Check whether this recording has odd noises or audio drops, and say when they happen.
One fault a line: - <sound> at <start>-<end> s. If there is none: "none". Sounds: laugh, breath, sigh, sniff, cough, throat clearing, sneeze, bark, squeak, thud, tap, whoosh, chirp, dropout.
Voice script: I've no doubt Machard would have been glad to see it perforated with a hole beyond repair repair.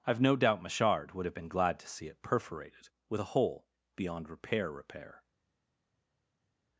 none